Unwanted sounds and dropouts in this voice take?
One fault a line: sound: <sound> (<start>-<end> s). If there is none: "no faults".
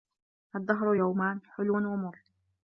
no faults